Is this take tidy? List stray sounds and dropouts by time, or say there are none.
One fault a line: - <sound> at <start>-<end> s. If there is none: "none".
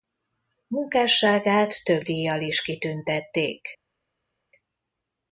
none